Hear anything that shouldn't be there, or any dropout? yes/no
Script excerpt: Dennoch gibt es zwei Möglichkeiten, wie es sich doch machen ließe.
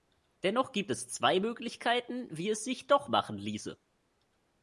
no